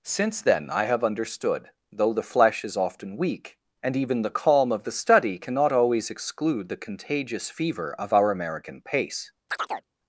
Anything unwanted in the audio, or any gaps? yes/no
yes